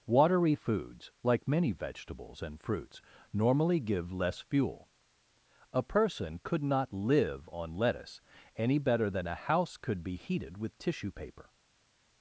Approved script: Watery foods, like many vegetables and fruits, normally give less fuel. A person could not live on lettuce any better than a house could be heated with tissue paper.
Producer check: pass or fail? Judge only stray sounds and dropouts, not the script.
pass